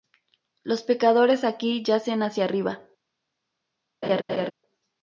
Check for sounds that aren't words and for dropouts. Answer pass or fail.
fail